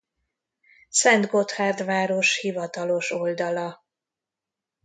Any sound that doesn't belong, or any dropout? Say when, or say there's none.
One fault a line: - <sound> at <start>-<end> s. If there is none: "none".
none